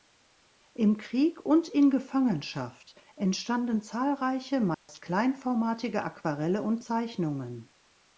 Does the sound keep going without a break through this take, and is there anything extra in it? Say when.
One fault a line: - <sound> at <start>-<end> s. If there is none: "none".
- dropout at 4.7-4.9 s